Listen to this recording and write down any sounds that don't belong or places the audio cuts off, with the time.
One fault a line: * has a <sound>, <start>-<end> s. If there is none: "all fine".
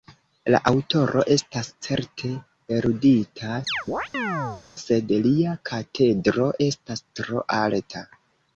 * has a chirp, 3.7-4.6 s